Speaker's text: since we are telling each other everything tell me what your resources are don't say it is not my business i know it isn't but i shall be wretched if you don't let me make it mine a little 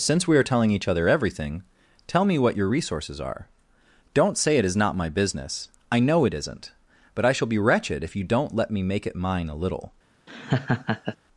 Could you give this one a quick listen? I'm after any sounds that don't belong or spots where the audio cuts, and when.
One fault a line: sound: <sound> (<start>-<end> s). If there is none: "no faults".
sound: laugh (10.3-11.2 s)